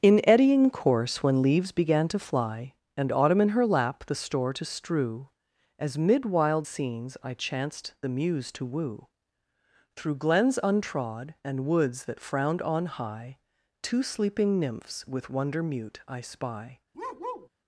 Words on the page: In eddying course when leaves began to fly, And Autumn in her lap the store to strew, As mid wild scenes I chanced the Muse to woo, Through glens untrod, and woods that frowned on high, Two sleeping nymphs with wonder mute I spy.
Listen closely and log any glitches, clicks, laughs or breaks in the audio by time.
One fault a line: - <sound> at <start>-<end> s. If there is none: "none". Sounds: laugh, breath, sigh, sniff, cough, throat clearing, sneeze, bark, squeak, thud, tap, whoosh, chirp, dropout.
- bark at 16.9-17.5 s